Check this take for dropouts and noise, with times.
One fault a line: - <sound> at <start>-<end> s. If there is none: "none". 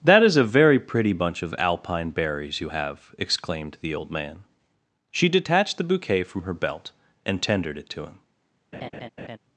- laugh at 8.7-9.4 s